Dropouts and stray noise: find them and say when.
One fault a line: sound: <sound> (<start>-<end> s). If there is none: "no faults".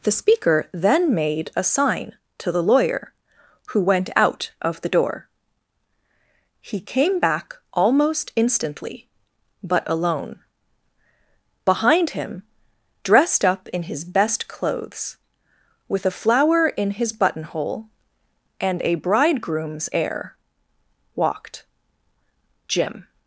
no faults